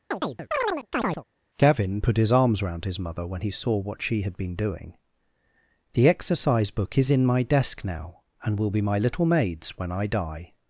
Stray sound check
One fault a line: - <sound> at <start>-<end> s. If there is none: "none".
- chirp at 0.1-1.2 s